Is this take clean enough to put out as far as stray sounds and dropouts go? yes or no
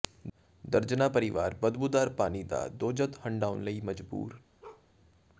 no